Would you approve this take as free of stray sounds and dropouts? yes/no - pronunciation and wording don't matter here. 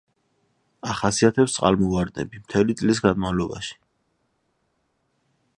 yes